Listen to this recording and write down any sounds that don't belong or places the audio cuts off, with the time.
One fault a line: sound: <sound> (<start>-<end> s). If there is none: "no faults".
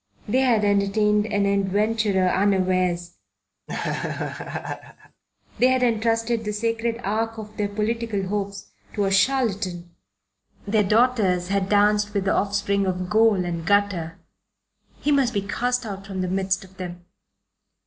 sound: laugh (3.7-5.2 s)